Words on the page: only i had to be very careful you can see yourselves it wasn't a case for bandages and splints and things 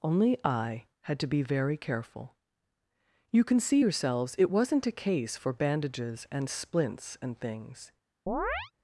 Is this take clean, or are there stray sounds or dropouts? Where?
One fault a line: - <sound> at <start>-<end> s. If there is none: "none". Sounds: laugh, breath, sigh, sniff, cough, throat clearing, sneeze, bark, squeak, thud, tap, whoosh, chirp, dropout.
- chirp at 8.3-8.7 s